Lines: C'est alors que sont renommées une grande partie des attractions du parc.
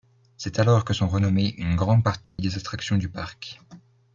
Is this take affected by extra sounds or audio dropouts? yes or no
yes